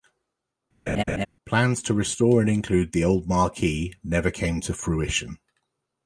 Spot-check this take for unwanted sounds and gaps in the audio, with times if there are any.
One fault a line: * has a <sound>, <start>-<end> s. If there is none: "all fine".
* has a laugh, 0.9-1.3 s